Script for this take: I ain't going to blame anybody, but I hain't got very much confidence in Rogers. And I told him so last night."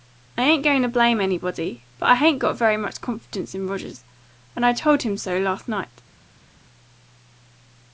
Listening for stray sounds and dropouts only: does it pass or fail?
pass